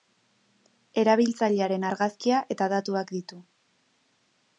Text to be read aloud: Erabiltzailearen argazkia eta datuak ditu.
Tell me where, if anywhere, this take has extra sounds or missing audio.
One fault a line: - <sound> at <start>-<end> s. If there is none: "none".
none